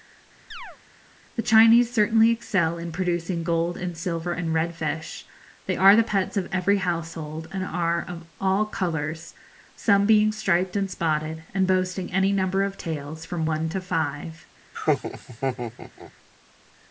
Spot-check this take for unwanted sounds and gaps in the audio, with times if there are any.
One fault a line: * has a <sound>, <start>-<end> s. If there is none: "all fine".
* has a chirp, 0.5-0.8 s
* has a laugh, 14.7-16.1 s